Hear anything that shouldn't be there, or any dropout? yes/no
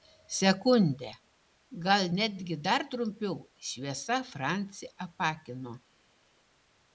no